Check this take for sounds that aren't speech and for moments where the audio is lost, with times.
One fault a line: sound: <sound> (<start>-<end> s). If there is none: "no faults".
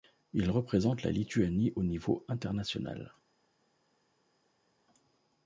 no faults